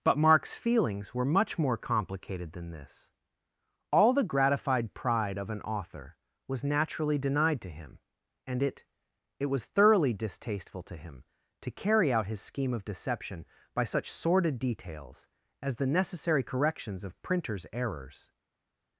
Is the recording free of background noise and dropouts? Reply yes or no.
yes